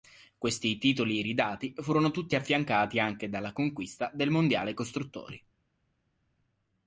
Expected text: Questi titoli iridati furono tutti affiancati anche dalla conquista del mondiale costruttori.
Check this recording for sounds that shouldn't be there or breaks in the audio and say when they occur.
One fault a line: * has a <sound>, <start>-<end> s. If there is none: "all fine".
all fine